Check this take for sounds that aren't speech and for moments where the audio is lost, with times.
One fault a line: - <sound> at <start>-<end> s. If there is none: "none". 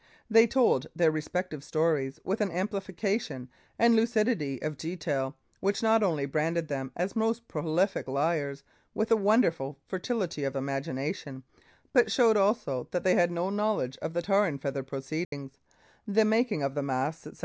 - dropout at 15.2-15.3 s